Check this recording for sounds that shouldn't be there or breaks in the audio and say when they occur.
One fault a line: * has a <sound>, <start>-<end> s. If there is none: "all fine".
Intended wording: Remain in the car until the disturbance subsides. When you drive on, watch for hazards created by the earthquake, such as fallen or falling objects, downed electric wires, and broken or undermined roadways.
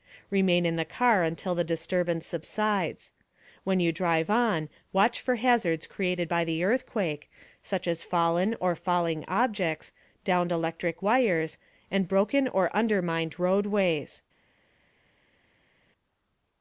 all fine